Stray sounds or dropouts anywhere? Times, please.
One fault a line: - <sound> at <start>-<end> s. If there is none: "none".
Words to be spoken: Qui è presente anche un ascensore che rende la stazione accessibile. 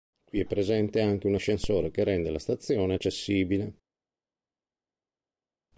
none